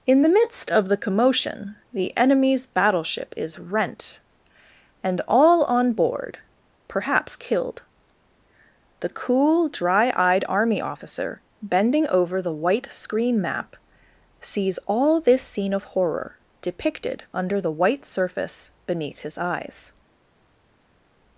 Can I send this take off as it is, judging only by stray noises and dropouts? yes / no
yes